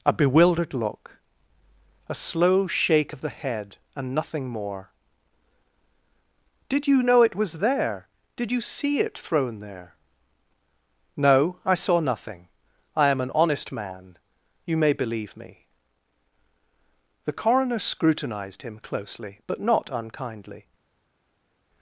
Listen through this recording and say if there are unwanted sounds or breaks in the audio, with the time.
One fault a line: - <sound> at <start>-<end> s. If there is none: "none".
none